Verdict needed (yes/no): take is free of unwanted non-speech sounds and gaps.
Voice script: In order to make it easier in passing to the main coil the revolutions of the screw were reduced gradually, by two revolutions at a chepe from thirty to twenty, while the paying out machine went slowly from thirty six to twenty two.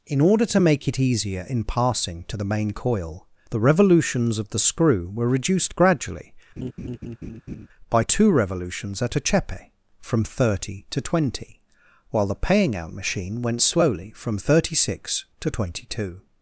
no